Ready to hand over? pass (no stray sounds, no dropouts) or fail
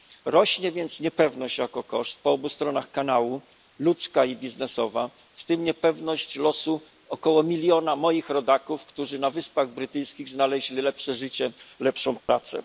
fail